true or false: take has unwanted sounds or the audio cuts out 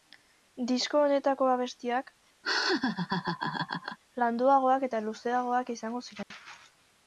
true